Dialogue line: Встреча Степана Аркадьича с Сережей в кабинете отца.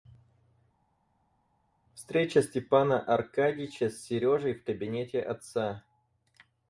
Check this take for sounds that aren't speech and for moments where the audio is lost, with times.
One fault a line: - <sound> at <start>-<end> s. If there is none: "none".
none